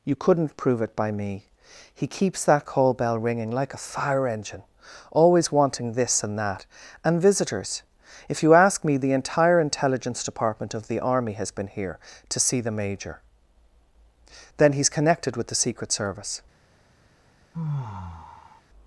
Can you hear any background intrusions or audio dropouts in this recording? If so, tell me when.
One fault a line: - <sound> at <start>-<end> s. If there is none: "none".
- sigh at 17.5-18.6 s